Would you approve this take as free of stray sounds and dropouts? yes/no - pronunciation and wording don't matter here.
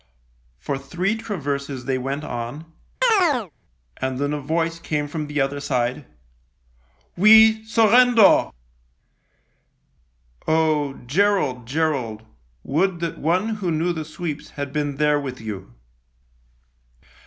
no